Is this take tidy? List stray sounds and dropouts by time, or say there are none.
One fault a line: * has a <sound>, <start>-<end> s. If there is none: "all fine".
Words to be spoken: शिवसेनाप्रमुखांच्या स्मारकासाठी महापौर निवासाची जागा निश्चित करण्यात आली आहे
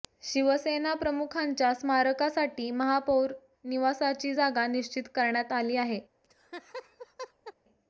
* has a laugh, 6.2-7.5 s